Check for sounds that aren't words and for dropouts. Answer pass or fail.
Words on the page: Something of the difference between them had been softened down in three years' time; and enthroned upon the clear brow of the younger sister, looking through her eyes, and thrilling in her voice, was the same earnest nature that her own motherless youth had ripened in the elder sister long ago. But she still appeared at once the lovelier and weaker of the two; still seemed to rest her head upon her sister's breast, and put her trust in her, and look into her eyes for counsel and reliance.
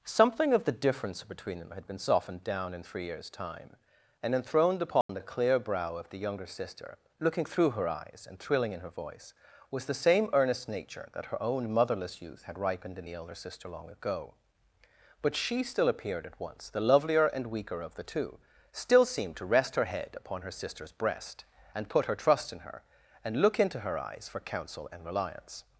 fail